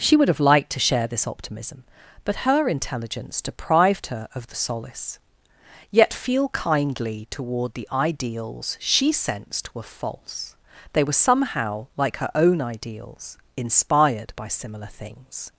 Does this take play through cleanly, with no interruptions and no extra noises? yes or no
yes